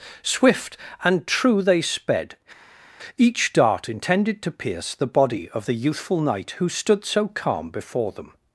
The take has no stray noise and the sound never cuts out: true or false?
true